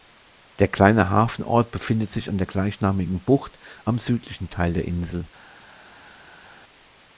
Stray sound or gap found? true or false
false